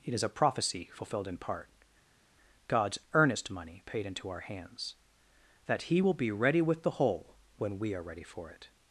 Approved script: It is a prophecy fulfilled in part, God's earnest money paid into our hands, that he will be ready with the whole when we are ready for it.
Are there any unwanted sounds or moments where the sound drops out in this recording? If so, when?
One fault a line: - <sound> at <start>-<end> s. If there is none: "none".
none